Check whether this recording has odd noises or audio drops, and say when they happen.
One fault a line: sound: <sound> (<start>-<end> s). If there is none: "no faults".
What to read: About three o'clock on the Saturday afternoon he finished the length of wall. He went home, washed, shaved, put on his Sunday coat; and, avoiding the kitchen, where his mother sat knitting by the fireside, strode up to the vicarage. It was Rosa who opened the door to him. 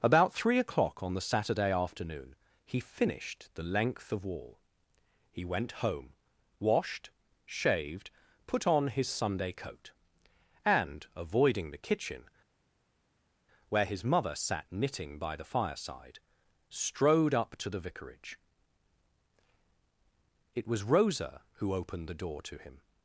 no faults